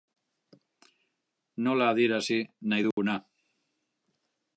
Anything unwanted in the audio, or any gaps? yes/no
yes